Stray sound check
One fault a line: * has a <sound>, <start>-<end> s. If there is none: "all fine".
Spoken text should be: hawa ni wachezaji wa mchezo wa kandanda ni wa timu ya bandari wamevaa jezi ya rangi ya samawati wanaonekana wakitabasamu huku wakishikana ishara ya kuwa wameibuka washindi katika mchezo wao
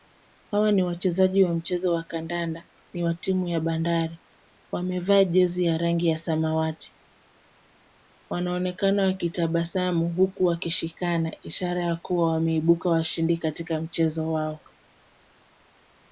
all fine